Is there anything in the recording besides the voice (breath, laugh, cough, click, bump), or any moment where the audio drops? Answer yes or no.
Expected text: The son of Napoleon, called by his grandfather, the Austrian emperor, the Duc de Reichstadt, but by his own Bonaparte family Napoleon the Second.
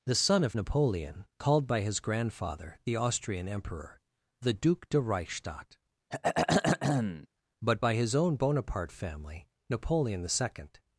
yes